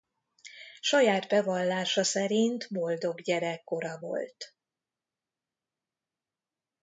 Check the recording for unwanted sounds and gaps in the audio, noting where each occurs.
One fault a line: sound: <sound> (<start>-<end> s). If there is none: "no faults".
no faults